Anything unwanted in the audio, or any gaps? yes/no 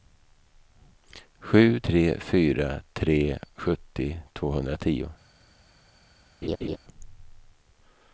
yes